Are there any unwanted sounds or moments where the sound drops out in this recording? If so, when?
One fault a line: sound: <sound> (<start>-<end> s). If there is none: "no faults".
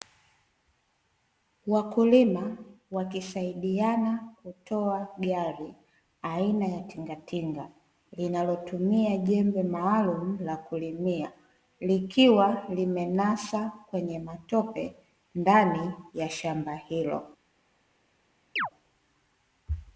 sound: chirp (18.6-18.7 s)